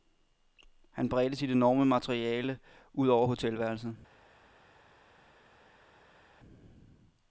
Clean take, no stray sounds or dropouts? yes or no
yes